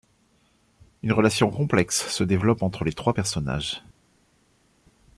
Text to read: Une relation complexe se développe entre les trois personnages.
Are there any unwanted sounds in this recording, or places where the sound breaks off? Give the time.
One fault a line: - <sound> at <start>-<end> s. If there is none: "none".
none